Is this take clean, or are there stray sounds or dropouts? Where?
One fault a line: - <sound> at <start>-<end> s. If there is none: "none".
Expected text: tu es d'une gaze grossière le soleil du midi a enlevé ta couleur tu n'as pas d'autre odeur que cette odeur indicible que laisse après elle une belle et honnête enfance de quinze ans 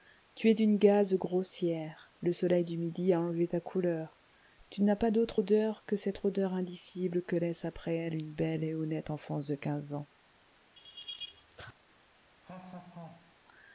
- laugh at 10.8-11.7 s
- laugh at 12.4-13.4 s